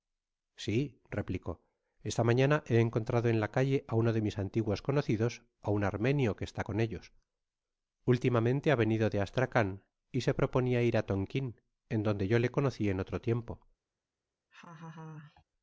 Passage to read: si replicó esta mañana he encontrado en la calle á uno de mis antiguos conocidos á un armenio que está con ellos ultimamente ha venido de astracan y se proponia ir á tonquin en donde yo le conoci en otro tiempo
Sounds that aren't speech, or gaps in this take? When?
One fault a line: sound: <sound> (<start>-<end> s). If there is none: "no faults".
sound: laugh (14.5-15.4 s)